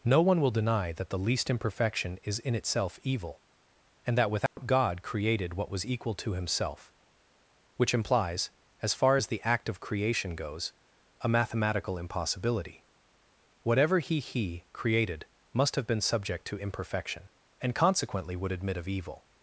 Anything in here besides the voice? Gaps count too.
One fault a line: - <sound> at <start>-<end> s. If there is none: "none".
- dropout at 4.5-4.6 s